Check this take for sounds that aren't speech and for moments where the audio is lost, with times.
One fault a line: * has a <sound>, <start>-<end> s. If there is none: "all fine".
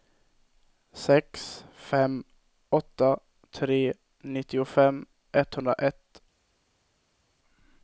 all fine